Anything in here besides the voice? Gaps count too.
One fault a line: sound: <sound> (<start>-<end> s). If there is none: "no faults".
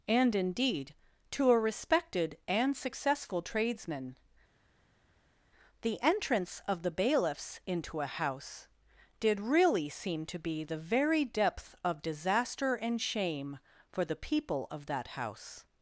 no faults